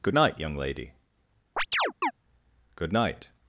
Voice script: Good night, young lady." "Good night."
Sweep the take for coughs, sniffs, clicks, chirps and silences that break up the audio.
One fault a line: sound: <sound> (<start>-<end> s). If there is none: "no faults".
sound: chirp (1.6-2.1 s)